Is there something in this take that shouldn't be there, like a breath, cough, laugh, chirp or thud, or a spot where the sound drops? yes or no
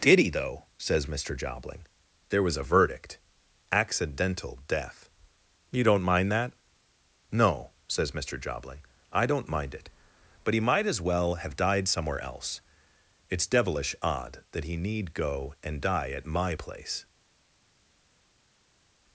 no